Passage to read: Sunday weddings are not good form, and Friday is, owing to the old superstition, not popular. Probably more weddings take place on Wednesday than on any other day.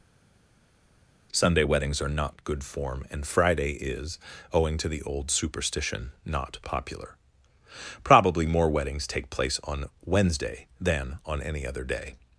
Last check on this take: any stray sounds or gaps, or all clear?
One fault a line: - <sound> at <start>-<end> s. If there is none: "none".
none